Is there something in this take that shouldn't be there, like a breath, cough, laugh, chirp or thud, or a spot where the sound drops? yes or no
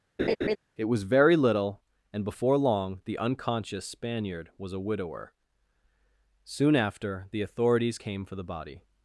yes